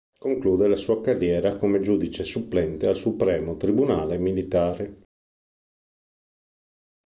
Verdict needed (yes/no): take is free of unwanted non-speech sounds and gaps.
yes